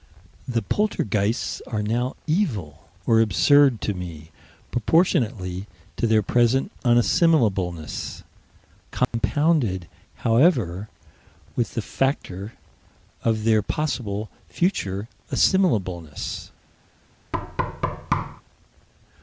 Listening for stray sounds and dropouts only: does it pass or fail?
fail